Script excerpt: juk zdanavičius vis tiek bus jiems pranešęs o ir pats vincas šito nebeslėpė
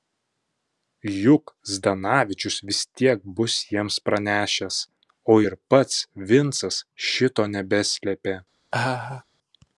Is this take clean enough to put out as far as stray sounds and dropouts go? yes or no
no